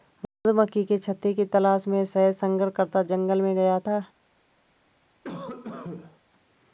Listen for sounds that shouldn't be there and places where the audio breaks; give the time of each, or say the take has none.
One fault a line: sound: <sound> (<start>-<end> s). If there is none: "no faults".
sound: cough (5.2-6.2 s)